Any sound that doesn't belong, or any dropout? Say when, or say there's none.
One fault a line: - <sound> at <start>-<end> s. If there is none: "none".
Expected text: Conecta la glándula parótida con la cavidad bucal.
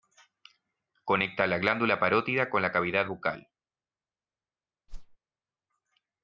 - whoosh at 4.9-5.2 s